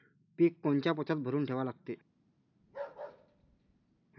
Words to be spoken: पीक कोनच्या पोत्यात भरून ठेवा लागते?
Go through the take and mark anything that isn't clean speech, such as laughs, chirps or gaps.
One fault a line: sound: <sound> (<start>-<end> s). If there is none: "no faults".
sound: bark (2.6-4.0 s)